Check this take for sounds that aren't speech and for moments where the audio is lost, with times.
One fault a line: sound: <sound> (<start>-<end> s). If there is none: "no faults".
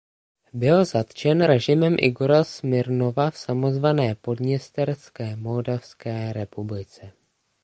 no faults